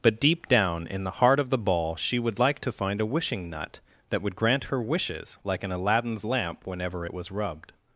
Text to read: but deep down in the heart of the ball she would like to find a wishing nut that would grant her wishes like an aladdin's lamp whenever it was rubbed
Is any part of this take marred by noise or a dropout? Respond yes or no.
no